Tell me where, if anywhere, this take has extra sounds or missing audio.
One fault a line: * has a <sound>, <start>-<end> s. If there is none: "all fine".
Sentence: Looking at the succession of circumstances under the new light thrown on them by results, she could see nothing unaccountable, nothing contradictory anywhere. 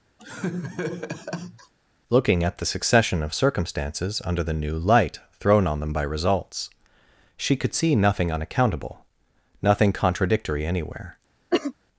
* has a laugh, 0.2-1.7 s
* has a cough, 11.5-11.7 s